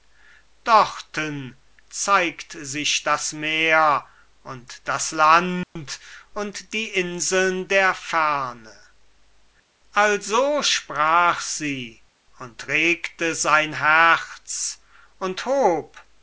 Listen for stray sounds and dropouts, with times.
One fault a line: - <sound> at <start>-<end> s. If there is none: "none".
- dropout at 5.6-5.8 s